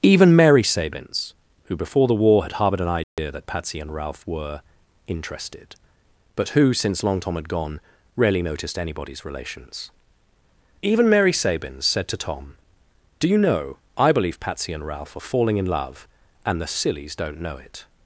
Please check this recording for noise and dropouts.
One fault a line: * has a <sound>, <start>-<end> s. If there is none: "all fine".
* has a dropout, 3.0-3.2 s